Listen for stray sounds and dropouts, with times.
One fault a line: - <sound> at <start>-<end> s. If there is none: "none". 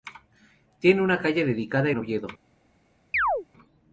- chirp at 3.1-3.5 s